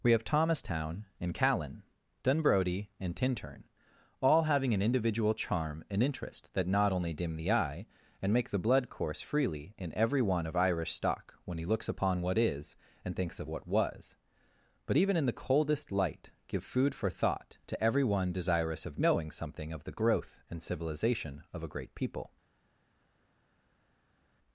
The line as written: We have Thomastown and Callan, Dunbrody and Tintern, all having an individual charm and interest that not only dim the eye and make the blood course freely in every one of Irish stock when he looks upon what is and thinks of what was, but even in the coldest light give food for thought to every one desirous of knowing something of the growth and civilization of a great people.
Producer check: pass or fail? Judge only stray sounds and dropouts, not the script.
pass